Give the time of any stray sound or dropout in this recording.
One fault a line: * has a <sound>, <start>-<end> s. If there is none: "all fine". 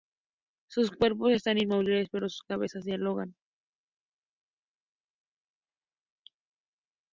all fine